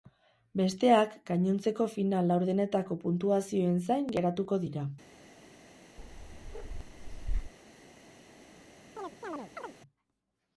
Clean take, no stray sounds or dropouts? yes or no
no